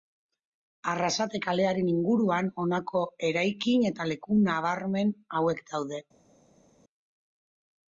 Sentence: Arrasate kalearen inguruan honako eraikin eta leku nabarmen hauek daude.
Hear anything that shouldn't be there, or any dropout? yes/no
no